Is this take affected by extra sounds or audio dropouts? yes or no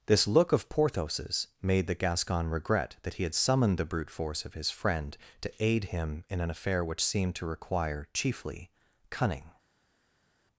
no